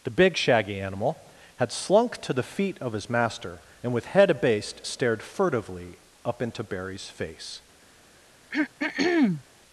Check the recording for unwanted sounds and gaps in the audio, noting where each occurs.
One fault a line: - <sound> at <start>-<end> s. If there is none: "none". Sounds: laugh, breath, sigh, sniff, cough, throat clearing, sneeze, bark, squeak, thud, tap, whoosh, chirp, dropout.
- throat clearing at 8.5-9.4 s